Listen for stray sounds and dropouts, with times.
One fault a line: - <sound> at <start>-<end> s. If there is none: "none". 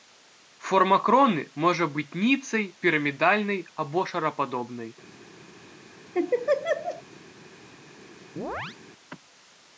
- laugh at 6.1-7.0 s
- chirp at 8.4-8.8 s